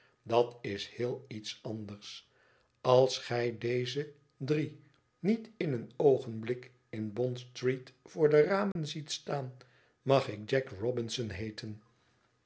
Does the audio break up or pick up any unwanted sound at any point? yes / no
yes